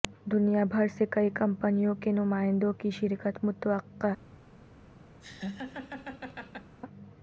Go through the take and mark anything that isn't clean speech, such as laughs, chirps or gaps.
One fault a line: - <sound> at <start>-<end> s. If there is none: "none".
- laugh at 5.2-6.8 s